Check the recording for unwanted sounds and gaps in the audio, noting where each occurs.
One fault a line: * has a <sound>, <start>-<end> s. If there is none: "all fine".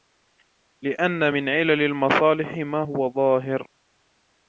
all fine